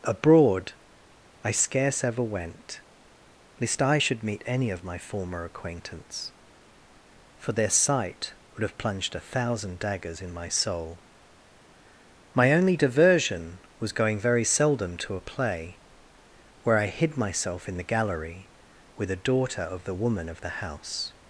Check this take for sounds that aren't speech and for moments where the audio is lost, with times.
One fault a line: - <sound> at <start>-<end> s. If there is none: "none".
none